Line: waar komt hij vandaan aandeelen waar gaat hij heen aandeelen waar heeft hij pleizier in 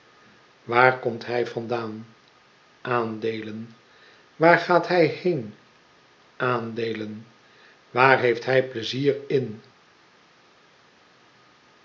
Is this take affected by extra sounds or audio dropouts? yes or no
no